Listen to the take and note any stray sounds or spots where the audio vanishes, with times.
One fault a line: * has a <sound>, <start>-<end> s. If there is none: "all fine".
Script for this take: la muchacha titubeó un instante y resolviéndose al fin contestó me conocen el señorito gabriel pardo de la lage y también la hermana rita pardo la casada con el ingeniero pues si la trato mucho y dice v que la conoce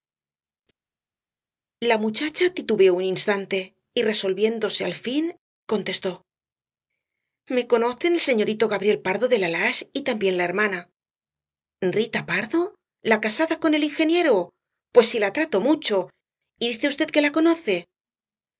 all fine